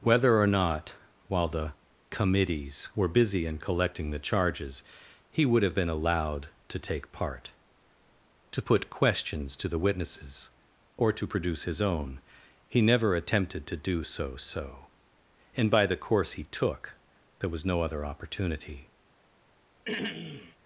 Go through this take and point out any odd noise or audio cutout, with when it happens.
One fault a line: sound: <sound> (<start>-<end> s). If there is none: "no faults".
sound: throat clearing (19.9-20.6 s)